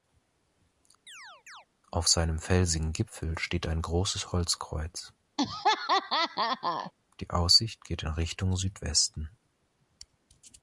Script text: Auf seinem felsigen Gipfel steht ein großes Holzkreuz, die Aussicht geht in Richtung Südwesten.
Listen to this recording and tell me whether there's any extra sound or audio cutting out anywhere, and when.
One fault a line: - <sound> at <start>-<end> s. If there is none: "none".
- chirp at 1.1-1.7 s
- laugh at 5.4-6.9 s